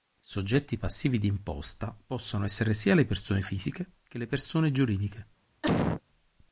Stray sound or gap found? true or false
true